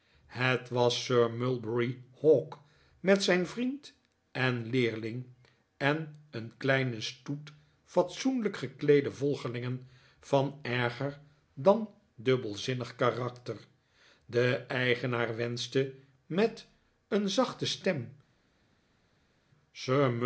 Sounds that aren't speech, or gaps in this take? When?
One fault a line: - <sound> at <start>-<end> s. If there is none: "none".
none